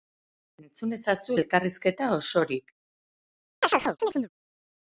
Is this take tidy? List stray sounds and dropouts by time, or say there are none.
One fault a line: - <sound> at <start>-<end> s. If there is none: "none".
- chirp at 3.6-4.3 s